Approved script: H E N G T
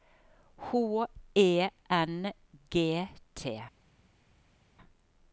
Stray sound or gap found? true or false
false